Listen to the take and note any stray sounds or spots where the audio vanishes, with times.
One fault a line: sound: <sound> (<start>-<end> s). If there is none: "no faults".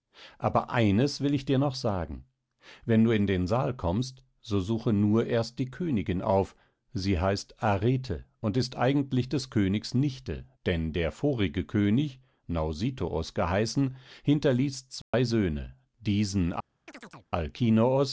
sound: dropout (15.0-15.1 s)
sound: chirp (16.9-17.3 s)